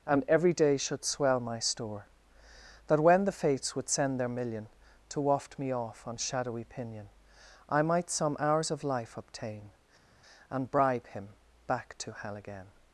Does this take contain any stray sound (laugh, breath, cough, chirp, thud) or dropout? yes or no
no